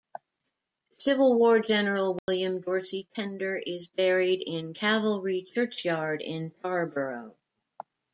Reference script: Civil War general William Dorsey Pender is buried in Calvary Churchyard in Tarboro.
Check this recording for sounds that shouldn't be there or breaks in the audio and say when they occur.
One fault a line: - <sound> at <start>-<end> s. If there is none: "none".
- dropout at 2.2-2.3 s